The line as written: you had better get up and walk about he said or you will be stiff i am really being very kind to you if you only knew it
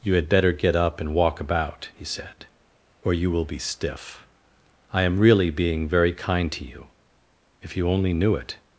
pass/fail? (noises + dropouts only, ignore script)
pass